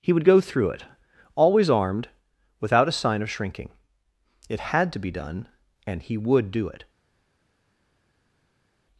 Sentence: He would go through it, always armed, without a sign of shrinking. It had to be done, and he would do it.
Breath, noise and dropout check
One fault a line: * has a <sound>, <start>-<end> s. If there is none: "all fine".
all fine